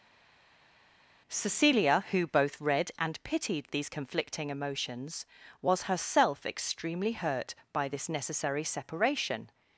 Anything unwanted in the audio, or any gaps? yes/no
no